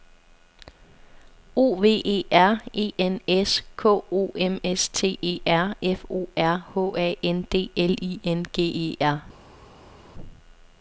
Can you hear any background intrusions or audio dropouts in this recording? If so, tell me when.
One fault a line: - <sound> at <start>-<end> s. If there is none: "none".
none